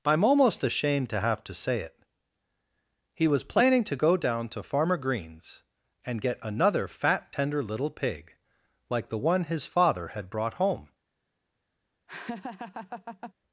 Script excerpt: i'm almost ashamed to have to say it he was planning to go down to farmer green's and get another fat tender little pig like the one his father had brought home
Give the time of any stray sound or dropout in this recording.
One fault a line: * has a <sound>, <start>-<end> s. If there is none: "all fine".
* has a laugh, 12.1-13.3 s